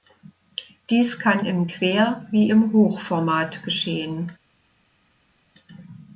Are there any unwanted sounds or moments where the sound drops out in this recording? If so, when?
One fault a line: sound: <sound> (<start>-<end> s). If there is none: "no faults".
no faults